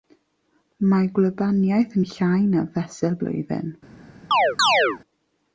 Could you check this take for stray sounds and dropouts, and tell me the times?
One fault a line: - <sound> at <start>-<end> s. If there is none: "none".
- chirp at 4.3-5.0 s